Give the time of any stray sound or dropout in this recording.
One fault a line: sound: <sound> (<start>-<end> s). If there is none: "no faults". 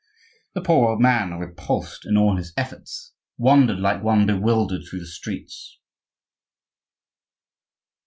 no faults